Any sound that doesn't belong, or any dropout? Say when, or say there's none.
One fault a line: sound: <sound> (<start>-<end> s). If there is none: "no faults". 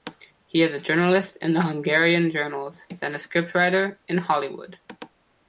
no faults